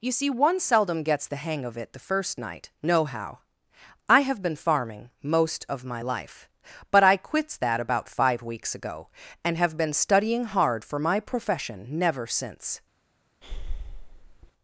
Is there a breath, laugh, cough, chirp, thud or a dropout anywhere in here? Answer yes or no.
yes